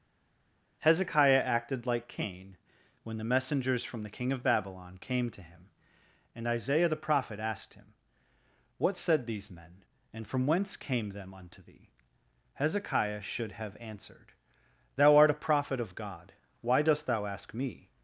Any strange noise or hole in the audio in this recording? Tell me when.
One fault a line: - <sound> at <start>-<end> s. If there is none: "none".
none